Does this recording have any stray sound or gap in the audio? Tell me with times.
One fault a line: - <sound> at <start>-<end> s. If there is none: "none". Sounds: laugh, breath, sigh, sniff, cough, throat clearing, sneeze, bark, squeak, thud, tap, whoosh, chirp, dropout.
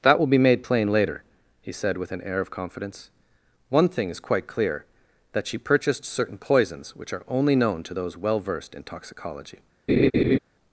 - laugh at 9.9-10.4 s